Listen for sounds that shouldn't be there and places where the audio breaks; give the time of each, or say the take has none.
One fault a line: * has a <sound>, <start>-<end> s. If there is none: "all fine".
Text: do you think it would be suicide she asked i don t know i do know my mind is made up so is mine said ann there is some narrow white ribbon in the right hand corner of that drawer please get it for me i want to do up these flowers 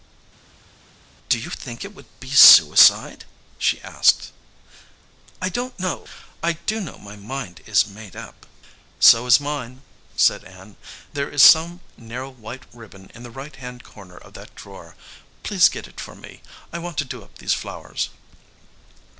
all fine